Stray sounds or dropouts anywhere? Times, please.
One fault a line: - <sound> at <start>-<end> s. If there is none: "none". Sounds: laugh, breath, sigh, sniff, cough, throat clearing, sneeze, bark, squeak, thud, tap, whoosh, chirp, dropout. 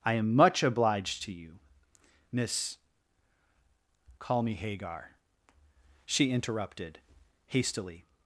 none